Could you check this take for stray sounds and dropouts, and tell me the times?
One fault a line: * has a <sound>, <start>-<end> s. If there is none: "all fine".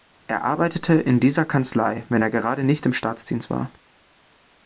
all fine